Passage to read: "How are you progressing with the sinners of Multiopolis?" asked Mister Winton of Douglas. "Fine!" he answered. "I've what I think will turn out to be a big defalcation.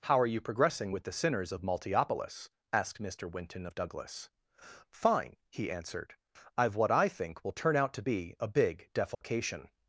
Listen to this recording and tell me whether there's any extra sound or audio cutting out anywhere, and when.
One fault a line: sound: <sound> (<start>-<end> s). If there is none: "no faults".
sound: dropout (9.1-9.2 s)